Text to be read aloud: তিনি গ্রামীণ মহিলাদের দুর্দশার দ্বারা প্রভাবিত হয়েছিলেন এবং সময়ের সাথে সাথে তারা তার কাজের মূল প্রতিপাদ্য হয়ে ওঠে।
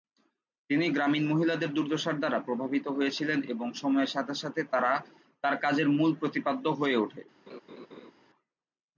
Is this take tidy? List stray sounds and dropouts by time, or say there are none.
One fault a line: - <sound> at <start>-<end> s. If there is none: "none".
- laugh at 7.5-8.1 s